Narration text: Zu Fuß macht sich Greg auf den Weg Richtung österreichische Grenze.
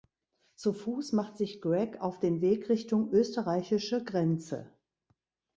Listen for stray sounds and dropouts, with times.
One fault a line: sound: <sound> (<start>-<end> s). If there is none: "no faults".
no faults